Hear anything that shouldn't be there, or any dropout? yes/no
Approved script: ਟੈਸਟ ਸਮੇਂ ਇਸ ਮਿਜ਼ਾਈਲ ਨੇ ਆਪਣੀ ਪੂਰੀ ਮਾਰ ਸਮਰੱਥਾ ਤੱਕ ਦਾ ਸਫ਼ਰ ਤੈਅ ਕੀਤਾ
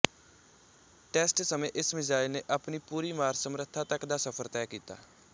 no